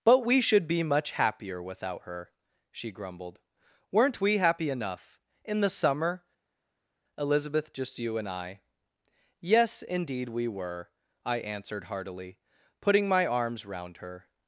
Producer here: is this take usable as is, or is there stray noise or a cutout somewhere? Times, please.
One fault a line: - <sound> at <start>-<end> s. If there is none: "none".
none